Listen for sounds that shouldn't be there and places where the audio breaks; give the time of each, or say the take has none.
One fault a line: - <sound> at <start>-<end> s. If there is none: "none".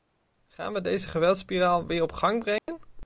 - dropout at 2.6-2.7 s